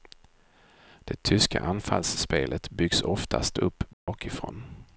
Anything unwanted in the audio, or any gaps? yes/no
yes